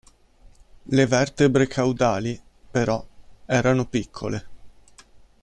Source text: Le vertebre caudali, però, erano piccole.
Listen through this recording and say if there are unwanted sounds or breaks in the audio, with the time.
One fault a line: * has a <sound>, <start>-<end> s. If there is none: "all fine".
all fine